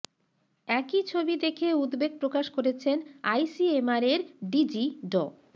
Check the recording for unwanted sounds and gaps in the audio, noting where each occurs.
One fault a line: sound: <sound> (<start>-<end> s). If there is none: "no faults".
no faults